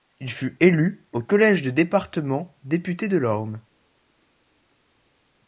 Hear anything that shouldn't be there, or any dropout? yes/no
no